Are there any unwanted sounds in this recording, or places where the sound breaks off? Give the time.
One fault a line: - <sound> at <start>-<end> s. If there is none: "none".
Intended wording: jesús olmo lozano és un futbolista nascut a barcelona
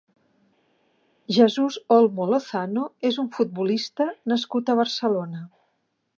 none